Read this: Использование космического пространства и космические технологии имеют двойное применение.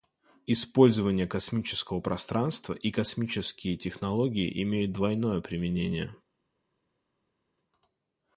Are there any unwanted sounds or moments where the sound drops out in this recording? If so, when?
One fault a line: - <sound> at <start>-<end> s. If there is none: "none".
none